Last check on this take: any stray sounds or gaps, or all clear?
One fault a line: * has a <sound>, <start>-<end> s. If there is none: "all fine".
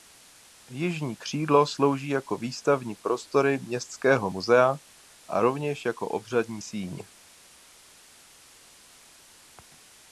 all fine